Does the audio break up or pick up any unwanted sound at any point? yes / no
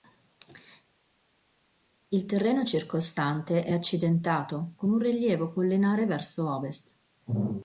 no